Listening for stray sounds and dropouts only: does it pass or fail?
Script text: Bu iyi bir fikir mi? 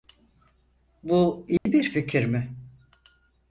fail